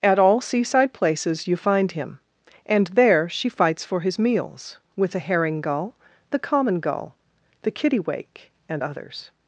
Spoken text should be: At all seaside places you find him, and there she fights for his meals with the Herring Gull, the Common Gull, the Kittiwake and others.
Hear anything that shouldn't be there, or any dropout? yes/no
no